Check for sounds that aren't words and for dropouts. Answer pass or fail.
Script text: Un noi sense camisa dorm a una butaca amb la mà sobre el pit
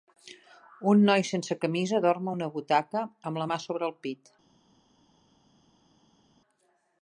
pass